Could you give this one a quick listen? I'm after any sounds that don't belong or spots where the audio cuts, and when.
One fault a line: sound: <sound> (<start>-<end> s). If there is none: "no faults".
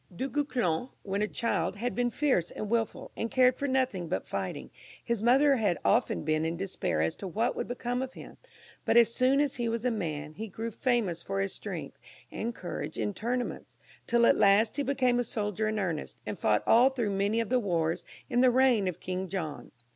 no faults